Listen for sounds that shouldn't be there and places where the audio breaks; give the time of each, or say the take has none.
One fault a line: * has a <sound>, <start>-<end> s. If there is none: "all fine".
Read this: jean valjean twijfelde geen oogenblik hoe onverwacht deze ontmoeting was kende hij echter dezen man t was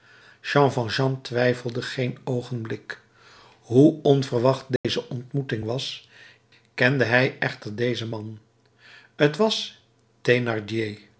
* has a dropout, 4.8-4.8 s